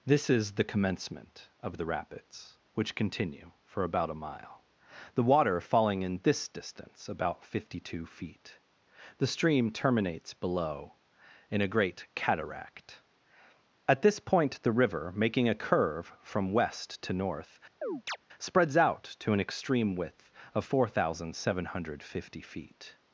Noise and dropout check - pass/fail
fail